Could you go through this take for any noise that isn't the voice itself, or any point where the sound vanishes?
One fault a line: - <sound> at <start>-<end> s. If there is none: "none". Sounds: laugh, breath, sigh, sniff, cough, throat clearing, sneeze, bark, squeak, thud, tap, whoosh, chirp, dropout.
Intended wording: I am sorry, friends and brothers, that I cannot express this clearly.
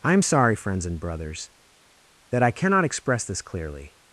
none